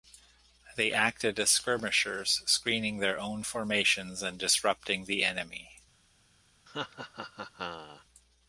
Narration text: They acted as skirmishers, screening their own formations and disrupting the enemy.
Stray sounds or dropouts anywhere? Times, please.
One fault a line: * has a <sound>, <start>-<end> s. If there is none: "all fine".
* has a laugh, 6.7-8.0 s